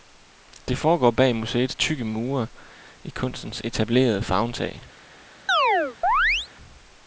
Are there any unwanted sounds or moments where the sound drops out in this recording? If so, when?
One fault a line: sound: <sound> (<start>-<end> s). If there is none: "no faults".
sound: chirp (5.5-6.5 s)